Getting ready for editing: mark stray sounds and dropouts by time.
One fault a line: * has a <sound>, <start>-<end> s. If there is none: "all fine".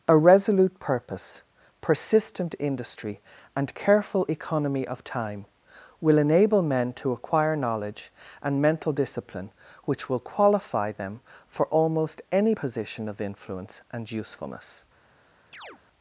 * has a chirp, 15.5-15.8 s